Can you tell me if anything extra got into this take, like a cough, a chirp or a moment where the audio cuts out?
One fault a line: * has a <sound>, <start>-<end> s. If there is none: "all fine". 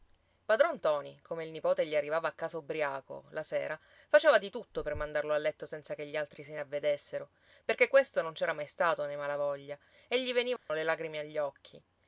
* has a dropout, 10.6-10.7 s